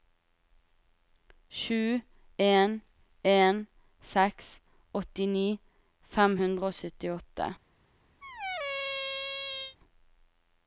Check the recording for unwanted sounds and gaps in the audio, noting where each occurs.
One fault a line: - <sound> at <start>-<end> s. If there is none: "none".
- squeak at 8.2-9.8 s